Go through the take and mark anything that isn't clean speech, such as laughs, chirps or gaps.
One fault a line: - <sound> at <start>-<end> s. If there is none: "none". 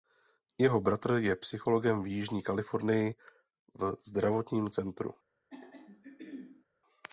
- throat clearing at 5.5-6.7 s